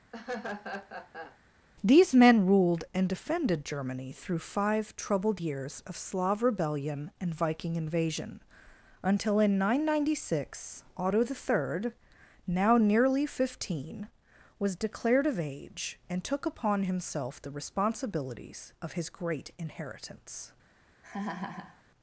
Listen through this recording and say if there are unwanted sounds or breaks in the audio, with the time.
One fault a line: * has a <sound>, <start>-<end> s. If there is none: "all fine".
* has a laugh, 0.1-1.4 s
* has a laugh, 21.0-21.8 s